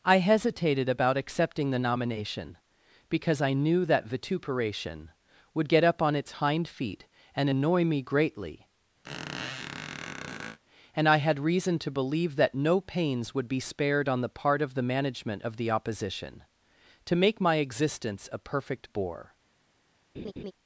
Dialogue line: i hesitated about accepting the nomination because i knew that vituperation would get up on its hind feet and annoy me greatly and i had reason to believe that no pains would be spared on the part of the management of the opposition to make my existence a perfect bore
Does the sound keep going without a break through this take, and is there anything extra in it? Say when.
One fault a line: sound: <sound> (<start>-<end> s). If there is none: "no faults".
sound: squeak (9.0-10.6 s)
sound: laugh (20.1-20.5 s)